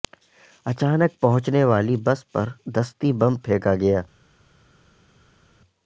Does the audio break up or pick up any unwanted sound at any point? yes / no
no